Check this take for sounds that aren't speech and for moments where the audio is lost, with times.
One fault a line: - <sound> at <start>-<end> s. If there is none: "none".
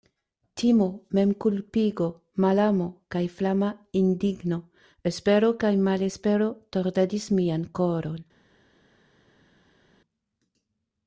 none